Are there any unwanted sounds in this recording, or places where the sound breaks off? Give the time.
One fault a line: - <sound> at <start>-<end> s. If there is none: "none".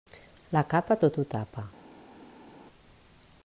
none